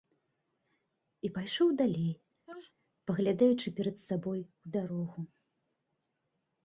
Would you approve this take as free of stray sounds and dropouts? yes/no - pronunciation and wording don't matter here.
no